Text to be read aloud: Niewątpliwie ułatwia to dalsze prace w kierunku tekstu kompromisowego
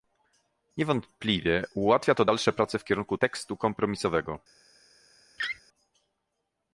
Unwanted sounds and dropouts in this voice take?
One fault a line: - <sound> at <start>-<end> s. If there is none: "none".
- laugh at 5.4-5.6 s